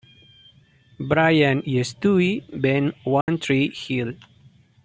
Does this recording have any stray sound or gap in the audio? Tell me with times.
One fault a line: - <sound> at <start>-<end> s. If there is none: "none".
- dropout at 3.2-3.3 s